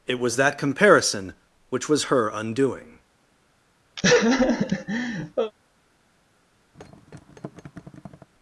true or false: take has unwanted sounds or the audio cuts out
true